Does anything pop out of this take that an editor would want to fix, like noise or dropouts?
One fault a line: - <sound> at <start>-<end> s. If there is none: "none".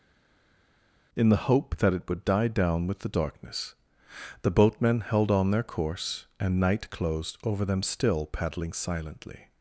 none